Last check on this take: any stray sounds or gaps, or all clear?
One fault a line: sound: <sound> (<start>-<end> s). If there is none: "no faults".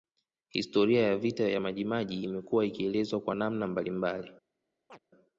sound: chirp (4.9-5.0 s)